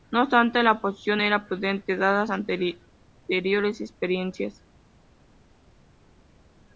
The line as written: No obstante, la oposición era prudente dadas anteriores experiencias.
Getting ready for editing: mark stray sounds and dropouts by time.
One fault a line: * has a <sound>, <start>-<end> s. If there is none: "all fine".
all fine